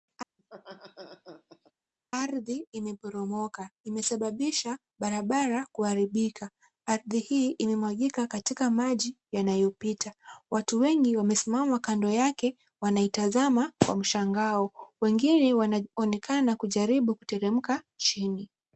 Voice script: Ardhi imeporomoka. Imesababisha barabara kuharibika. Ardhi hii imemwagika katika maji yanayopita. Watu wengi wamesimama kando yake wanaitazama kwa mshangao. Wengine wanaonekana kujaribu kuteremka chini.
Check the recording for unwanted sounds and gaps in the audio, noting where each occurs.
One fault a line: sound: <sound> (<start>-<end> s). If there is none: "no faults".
sound: laugh (0.4-1.7 s)